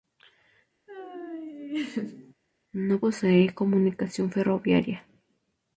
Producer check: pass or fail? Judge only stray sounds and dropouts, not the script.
fail